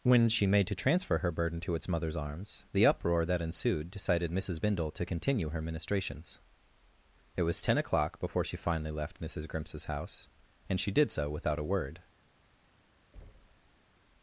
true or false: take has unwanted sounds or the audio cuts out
true